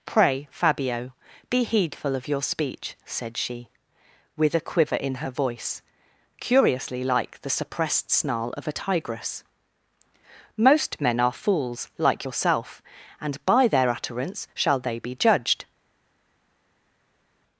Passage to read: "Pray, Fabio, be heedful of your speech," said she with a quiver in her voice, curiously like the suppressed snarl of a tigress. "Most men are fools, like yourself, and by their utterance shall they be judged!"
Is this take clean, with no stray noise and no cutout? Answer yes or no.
yes